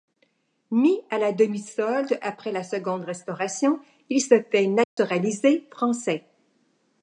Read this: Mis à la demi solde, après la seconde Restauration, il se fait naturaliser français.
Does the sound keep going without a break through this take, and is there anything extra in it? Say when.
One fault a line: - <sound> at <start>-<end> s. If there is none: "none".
- dropout at 4.8-5.0 s